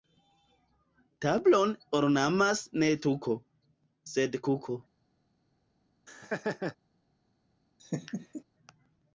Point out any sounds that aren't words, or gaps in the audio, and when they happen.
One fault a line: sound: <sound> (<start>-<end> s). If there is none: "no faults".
sound: laugh (6.1-6.8 s)
sound: laugh (7.8-8.4 s)